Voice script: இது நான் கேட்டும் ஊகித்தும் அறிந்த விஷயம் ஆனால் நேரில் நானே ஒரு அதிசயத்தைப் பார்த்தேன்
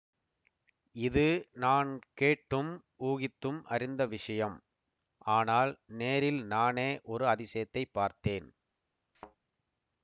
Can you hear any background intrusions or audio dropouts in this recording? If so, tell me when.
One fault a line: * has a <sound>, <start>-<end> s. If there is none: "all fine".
* has a thud, 9.1-9.4 s